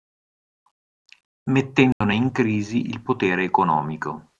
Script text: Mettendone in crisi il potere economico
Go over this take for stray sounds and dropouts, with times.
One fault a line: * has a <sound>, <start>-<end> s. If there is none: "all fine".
* has a dropout, 1.9-2.0 s